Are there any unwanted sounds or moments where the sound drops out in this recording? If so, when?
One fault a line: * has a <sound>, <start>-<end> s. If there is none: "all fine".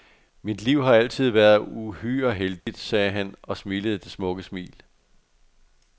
* has a dropout, 2.6-2.7 s